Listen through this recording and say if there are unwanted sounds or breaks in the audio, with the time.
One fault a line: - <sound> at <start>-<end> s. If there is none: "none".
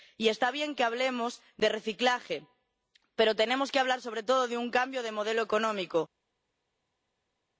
none